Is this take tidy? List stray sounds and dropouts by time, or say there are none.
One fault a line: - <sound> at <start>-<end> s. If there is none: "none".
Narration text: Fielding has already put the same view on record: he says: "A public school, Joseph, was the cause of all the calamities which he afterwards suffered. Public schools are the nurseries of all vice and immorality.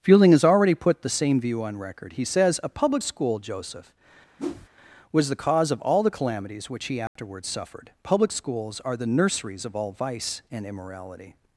- whoosh at 4.4-4.7 s
- dropout at 7.1-7.2 s